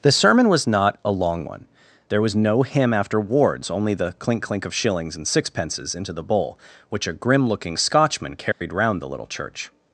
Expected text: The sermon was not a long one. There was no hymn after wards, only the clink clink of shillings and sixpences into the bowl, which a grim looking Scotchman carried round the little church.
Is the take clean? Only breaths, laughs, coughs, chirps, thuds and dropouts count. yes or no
no